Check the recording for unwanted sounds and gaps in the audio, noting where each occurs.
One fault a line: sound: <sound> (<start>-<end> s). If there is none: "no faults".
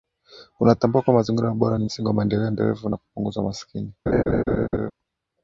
sound: laugh (4.1-4.9 s)